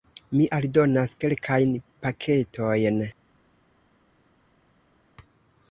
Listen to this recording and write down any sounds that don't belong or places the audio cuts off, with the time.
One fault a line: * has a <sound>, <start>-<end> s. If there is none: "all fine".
all fine